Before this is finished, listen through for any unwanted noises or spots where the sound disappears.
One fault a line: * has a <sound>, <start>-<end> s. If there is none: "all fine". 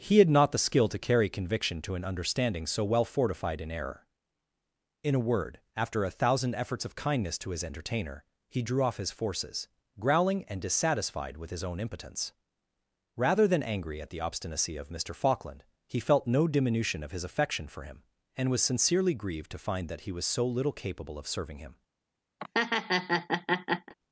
* has a laugh, 22.4-23.9 s